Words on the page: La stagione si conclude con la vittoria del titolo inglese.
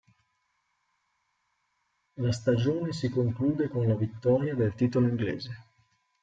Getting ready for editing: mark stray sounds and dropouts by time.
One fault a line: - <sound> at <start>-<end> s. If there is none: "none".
none